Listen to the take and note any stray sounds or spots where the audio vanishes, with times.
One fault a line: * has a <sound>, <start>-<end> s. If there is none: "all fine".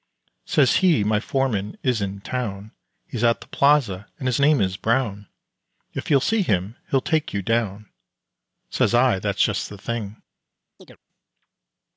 * has a chirp, 10.8-11.0 s